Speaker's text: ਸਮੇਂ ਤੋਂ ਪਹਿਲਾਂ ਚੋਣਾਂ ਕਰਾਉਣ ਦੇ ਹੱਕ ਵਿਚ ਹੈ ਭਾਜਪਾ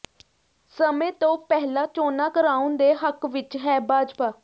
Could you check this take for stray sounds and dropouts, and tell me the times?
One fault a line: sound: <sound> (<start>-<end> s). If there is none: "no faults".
no faults